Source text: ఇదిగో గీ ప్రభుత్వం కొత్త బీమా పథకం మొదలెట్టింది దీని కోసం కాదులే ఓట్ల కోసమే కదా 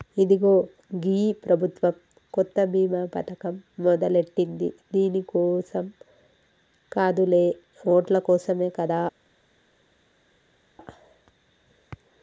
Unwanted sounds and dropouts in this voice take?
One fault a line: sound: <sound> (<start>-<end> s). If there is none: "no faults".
no faults